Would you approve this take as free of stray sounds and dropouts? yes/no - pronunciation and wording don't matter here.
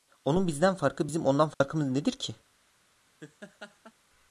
no